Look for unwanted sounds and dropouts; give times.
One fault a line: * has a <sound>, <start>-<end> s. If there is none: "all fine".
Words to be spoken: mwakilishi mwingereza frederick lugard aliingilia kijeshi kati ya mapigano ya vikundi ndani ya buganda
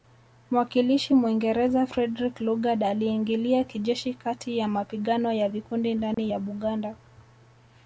* has a dropout, 6.1-6.2 s